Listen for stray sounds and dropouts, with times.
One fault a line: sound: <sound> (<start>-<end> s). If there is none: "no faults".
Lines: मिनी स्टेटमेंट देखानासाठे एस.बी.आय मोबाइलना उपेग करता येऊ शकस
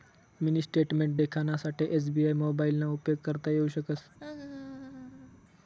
sound: laugh (4.2-5.4 s)